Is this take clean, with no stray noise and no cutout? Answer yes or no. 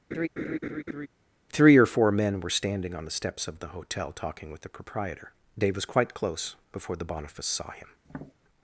no